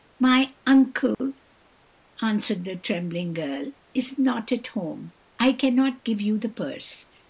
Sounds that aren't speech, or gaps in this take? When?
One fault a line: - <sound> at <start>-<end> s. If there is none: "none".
- dropout at 1.1-1.2 s